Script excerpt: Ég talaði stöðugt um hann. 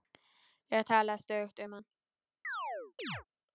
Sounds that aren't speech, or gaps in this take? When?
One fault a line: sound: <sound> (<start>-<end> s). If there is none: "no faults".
sound: chirp (2.4-3.2 s)